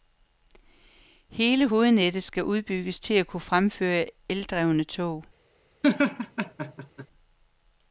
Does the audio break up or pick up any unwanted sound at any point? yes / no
yes